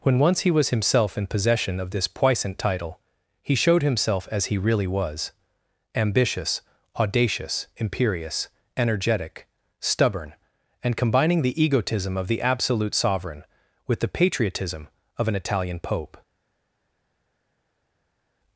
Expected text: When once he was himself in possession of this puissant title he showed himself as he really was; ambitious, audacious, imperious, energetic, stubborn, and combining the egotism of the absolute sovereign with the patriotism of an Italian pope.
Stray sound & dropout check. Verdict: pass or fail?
pass